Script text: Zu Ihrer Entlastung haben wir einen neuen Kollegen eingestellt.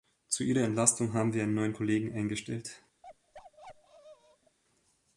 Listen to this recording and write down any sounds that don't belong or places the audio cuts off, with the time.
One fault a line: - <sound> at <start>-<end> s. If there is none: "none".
- bark at 3.0-4.6 s